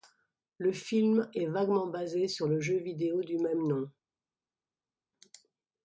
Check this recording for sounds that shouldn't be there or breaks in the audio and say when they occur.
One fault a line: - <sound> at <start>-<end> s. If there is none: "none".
none